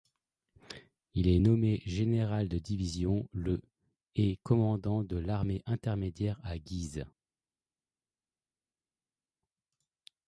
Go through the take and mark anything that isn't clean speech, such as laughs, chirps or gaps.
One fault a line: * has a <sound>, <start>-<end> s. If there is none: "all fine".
all fine